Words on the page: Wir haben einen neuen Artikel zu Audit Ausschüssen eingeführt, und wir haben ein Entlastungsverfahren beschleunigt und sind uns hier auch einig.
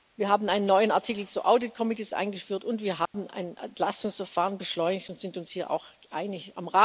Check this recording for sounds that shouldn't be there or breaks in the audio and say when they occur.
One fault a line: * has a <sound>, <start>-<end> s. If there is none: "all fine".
* has a dropout, 3.1-3.1 s